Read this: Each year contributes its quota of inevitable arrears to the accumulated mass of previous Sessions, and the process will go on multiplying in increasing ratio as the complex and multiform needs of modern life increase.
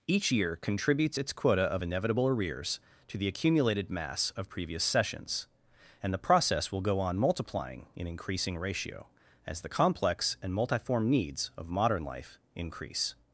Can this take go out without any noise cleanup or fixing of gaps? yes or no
yes